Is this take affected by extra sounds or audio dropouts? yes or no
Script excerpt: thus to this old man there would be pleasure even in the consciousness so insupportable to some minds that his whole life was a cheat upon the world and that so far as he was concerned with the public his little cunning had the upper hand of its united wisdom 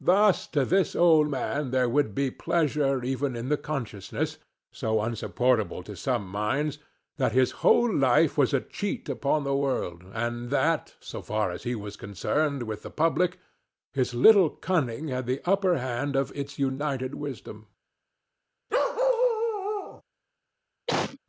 yes